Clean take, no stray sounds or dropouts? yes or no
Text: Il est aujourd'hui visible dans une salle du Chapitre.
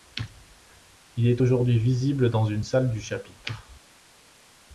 yes